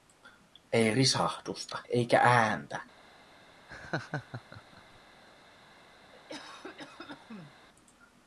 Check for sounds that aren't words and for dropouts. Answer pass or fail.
fail